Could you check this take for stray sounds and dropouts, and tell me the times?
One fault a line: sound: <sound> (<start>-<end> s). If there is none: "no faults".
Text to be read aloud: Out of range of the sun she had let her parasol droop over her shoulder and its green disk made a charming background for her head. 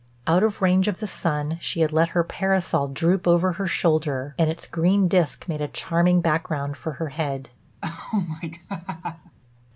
sound: laugh (7.8-9.4 s)